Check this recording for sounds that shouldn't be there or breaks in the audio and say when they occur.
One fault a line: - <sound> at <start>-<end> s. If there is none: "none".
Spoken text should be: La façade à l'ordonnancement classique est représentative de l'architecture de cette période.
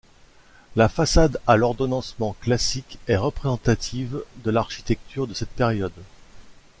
none